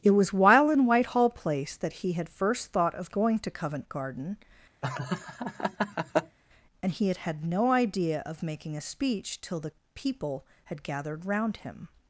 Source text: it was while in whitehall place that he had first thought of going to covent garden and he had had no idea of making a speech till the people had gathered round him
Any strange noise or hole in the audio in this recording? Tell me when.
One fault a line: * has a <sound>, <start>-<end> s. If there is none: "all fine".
* has a laugh, 4.8-6.4 s